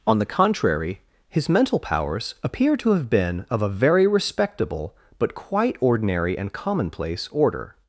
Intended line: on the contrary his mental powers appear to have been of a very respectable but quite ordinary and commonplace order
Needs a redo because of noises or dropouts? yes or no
no